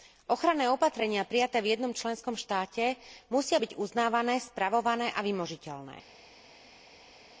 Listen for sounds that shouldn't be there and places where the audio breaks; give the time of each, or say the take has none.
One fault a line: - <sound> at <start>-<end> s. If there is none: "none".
none